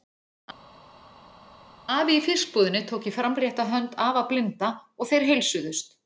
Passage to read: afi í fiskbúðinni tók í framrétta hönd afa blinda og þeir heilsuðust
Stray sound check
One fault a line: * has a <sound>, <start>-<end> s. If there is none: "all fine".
all fine